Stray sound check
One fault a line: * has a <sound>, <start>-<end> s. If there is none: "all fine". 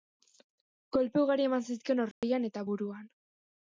* has a dropout, 2.1-2.2 s